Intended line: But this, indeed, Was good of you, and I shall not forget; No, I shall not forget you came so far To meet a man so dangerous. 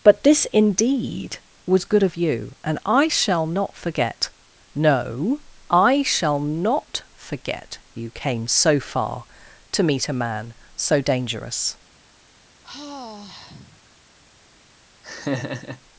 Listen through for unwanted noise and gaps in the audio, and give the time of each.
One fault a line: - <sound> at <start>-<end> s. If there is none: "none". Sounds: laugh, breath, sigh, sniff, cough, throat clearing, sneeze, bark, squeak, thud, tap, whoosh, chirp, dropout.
- sigh at 12.6-13.8 s
- laugh at 15.0-15.8 s